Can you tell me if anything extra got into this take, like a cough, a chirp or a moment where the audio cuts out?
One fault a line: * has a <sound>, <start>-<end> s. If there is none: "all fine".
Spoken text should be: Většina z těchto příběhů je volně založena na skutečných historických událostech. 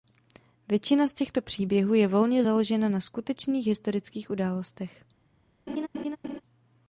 * has a laugh, 5.7-6.4 s